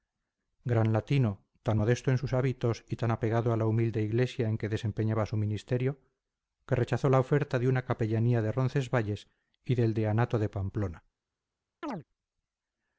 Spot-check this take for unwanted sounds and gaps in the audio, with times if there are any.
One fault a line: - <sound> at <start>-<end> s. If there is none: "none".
- chirp at 11.8-12.0 s